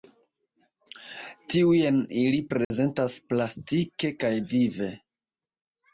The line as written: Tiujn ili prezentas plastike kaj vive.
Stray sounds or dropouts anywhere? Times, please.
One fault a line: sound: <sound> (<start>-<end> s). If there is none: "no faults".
sound: dropout (2.6-2.7 s)